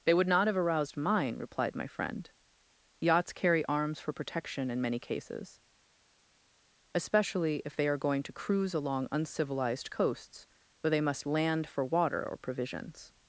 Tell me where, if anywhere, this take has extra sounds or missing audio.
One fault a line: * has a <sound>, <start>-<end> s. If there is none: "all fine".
all fine